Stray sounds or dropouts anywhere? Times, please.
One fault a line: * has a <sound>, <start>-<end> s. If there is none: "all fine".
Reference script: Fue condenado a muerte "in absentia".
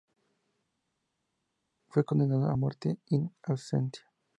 all fine